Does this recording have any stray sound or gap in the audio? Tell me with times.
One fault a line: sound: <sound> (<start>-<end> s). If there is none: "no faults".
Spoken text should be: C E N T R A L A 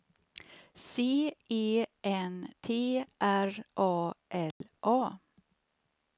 sound: dropout (4.5-4.6 s)